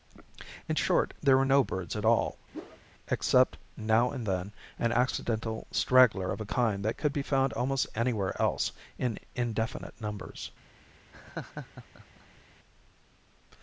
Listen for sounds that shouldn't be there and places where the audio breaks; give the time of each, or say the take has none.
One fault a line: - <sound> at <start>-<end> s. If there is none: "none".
- whoosh at 2.5-2.8 s
- laugh at 11.1-12.4 s